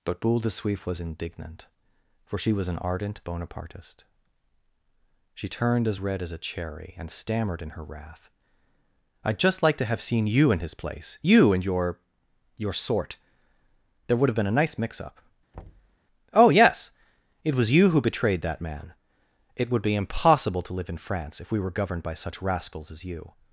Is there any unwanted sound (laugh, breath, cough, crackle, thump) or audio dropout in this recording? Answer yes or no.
yes